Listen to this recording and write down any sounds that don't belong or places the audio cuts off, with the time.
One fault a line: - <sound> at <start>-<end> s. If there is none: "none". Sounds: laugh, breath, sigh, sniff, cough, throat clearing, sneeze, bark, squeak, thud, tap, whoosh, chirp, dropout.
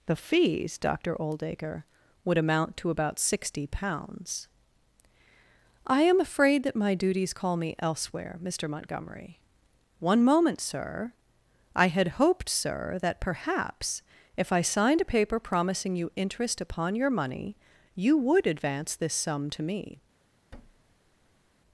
- thud at 20.5-21.5 s